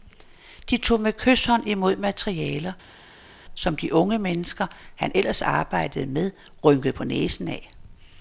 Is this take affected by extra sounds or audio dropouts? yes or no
no